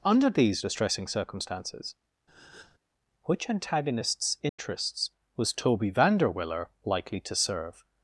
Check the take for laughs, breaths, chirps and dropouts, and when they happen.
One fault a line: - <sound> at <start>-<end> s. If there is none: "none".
- breath at 2.3-2.8 s
- dropout at 4.5-4.6 s